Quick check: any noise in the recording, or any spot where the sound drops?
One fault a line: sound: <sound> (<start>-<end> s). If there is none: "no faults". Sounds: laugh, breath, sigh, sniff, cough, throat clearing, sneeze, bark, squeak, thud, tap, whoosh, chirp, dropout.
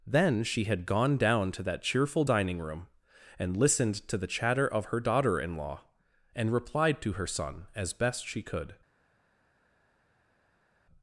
no faults